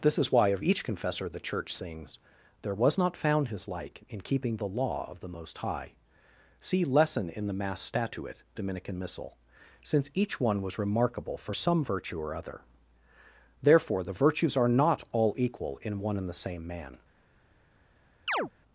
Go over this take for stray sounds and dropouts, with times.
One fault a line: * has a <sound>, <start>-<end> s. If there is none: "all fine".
* has a chirp, 18.3-18.5 s